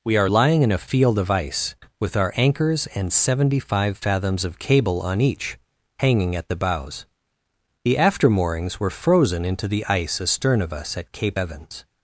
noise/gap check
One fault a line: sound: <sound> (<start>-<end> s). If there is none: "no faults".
no faults